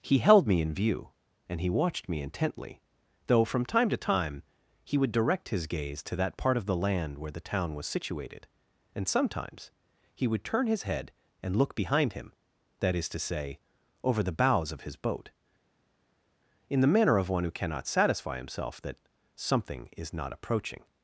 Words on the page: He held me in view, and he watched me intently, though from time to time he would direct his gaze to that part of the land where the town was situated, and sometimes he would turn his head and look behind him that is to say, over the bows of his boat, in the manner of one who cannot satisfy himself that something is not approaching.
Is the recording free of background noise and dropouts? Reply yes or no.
yes